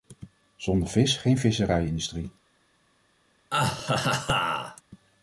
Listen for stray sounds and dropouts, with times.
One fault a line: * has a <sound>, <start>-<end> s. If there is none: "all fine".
* has a laugh, 3.5-4.8 s